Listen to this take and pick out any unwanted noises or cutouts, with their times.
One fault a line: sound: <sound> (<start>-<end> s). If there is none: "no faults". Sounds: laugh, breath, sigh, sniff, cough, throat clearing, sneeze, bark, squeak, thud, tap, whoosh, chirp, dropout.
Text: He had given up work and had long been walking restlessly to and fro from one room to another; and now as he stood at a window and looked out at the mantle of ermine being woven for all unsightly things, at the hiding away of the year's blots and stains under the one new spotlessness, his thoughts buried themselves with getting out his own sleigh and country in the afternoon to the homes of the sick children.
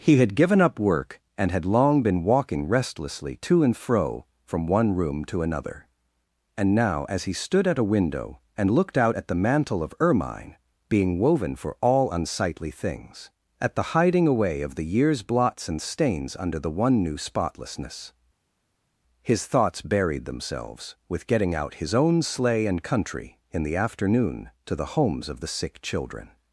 no faults